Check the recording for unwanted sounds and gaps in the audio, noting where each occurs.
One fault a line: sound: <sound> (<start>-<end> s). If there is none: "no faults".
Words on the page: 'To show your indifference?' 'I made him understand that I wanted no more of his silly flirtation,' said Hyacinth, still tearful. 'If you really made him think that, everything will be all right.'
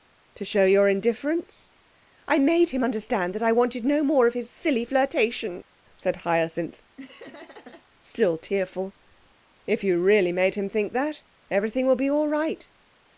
sound: laugh (7.0-7.9 s)